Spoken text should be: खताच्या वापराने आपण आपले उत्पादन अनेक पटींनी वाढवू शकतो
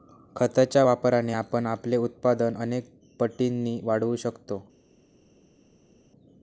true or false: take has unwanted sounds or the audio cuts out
false